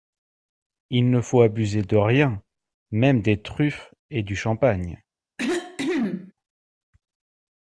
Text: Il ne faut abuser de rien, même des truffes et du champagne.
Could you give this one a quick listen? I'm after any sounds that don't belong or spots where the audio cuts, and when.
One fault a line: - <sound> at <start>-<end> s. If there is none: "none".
- cough at 5.4-6.3 s